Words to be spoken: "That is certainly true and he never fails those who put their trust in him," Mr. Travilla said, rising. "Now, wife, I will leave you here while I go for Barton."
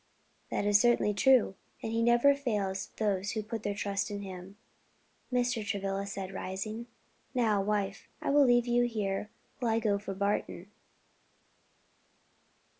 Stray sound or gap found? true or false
false